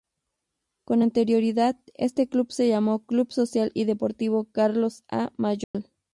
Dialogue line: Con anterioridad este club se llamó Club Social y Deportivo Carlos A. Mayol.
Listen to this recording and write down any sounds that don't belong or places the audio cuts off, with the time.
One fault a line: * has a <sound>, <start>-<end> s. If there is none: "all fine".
* has a dropout, 5.6-5.7 s